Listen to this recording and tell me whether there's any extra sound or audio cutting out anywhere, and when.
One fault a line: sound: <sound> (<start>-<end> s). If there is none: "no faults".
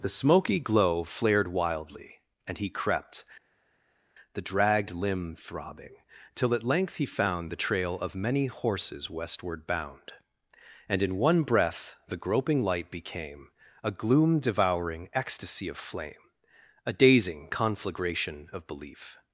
no faults